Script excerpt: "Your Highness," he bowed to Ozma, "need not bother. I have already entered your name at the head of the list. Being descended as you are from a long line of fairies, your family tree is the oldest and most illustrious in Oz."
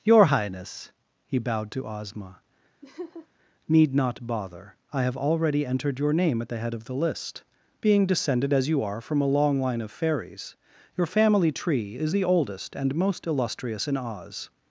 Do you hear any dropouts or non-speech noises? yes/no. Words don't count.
yes